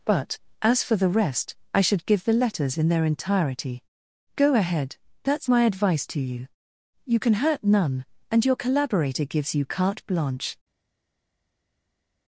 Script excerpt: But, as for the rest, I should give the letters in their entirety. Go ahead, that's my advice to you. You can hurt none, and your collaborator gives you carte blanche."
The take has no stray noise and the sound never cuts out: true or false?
true